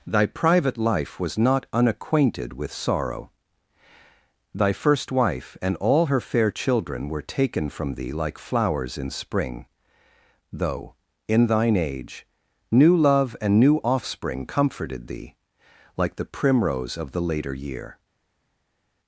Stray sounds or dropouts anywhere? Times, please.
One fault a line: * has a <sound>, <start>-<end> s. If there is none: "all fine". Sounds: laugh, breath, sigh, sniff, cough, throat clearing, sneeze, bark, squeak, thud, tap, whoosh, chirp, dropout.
all fine